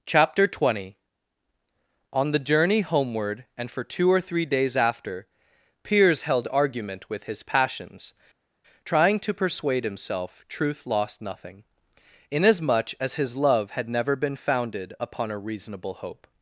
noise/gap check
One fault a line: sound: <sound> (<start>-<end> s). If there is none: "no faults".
no faults